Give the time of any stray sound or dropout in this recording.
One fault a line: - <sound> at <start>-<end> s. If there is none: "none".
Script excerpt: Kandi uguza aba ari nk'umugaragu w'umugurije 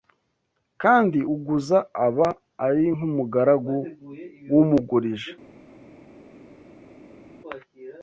none